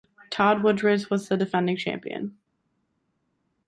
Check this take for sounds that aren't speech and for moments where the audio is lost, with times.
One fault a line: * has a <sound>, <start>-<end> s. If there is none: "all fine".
all fine